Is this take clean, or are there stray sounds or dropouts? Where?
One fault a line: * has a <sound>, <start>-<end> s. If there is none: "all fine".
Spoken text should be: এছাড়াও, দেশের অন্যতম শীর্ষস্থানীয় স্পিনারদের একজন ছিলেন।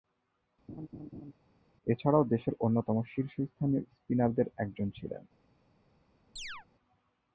* has a laugh, 0.7-1.3 s
* has a chirp, 6.4-6.7 s